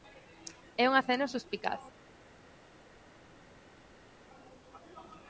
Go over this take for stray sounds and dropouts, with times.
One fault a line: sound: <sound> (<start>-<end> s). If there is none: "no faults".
no faults